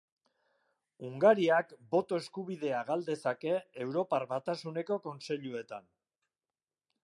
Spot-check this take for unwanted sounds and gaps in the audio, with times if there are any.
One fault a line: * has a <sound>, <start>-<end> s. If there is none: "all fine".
all fine